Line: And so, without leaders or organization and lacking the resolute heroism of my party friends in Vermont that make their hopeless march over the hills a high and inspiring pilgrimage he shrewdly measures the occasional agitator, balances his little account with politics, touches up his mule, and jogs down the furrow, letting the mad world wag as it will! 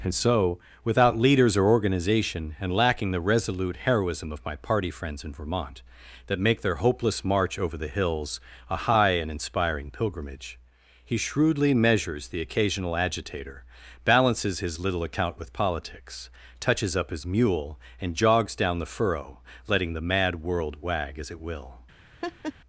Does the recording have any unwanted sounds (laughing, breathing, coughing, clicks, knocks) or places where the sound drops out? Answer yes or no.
yes